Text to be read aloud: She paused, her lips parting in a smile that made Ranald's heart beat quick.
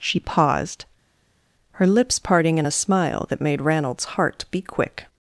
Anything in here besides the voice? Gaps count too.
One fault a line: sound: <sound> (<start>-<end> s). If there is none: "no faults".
no faults